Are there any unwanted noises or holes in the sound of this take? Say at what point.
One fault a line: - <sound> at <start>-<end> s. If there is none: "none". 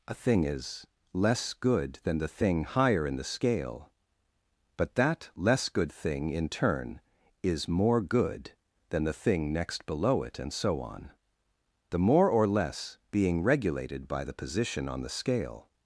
none